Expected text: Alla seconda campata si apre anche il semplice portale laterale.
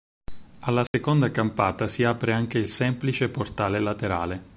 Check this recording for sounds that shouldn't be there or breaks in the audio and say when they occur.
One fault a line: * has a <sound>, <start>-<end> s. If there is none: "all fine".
* has a dropout, 0.9-0.9 s